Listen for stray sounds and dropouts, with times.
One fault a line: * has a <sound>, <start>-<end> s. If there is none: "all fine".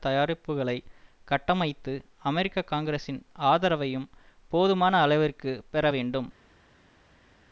all fine